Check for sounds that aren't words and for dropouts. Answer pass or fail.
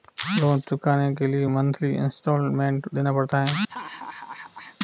fail